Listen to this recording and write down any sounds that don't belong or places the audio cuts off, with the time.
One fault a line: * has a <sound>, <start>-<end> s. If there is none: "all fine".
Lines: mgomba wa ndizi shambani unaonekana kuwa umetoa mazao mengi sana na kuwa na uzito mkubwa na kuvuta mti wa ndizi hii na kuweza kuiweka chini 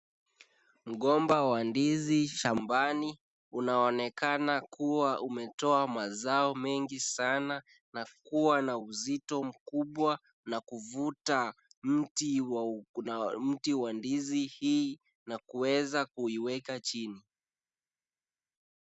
all fine